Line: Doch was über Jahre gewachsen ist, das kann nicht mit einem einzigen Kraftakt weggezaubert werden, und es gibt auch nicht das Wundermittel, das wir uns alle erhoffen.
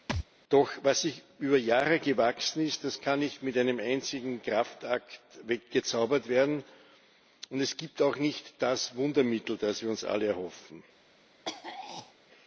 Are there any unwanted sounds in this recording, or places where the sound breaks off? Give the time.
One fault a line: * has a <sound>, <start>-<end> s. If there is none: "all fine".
* has a thud, 0.1-0.3 s
* has a throat clearing, 11.4-12.1 s